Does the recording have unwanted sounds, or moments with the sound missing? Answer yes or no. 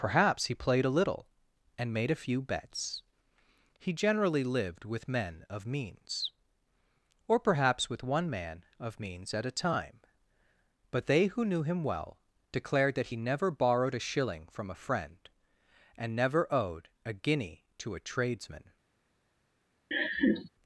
yes